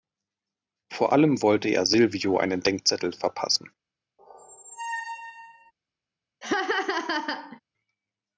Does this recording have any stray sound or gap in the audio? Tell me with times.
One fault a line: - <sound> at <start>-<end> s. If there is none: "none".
- squeak at 4.2-5.7 s
- laugh at 6.4-7.6 s